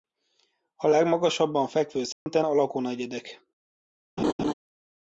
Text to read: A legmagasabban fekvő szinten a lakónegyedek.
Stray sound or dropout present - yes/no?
yes